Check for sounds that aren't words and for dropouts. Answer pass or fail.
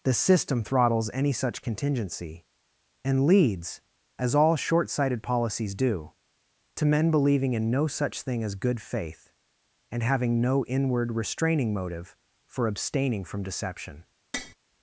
fail